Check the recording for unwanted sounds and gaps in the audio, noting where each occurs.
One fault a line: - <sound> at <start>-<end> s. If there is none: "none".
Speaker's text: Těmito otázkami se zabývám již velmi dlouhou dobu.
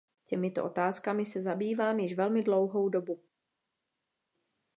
none